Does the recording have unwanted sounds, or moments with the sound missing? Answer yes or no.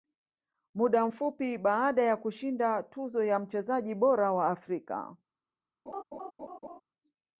yes